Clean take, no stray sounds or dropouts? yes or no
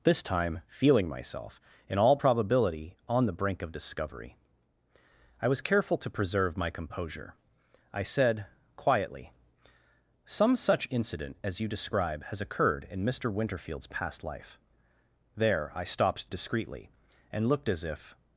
yes